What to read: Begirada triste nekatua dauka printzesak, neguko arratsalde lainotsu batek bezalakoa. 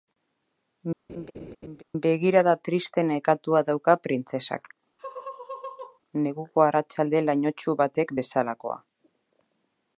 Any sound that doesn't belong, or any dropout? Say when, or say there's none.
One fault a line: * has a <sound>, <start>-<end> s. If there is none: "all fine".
* has a laugh, 1.1-1.8 s
* has a laugh, 5.0-6.0 s